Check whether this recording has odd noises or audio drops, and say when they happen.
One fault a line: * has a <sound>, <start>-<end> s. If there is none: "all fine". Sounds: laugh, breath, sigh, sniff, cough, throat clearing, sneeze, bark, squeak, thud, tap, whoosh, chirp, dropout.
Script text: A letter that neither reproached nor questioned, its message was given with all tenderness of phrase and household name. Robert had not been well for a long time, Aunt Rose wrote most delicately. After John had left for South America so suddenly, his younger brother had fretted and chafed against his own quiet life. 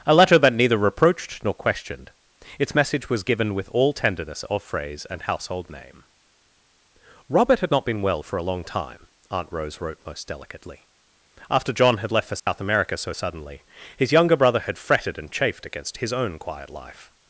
* has a dropout, 12.4-12.5 s